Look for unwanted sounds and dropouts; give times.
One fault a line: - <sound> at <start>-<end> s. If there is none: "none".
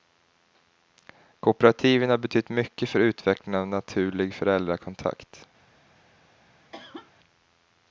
- cough at 6.7-7.1 s